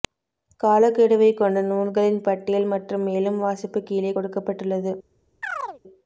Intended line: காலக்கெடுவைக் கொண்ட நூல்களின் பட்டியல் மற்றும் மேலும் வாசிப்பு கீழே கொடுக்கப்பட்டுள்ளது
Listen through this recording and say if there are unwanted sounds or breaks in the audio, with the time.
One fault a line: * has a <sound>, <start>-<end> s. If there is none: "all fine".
* has a chirp, 5.4-5.8 s